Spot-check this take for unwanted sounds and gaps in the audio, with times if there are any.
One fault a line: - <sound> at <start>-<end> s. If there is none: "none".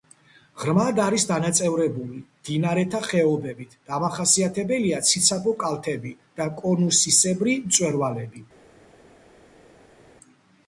none